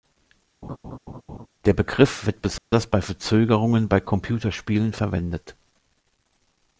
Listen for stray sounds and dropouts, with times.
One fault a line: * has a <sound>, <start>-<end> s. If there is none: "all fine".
* has a laugh, 0.6-1.5 s
* has a dropout, 2.6-2.7 s